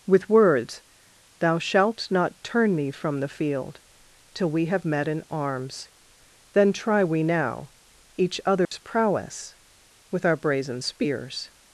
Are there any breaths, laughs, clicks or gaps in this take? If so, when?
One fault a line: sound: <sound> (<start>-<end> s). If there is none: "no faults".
sound: dropout (8.7-8.7 s)